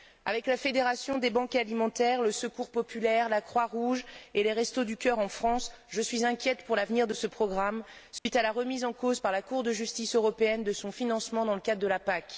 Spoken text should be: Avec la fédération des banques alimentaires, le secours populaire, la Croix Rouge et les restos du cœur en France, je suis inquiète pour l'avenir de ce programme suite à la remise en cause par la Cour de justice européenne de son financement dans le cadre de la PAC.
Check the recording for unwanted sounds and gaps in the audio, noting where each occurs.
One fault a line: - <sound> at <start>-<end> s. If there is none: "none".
- dropout at 8.2-8.3 s